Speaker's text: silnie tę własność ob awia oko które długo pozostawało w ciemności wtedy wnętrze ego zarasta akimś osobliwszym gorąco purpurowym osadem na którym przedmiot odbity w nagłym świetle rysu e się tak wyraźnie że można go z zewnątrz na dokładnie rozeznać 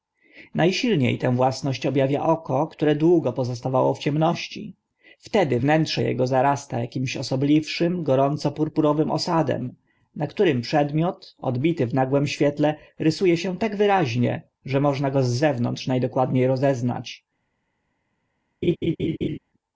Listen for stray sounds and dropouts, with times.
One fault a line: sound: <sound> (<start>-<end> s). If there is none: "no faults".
sound: laugh (18.6-19.4 s)